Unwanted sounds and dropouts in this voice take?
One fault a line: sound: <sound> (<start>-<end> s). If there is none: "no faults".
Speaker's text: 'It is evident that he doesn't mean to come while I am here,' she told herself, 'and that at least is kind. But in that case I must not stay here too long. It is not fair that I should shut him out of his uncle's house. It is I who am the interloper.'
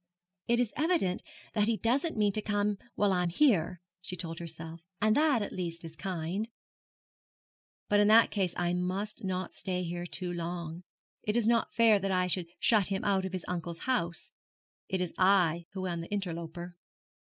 no faults